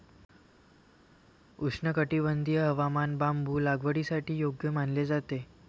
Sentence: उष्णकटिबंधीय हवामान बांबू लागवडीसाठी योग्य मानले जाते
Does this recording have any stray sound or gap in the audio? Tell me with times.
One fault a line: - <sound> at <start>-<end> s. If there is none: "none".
none